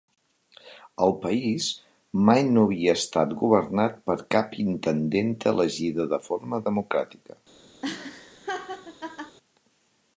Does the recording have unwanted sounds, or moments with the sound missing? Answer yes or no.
yes